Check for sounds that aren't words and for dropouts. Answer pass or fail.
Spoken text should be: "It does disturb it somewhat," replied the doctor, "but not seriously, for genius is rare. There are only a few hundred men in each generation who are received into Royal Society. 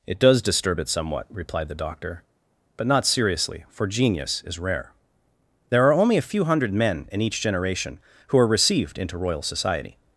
pass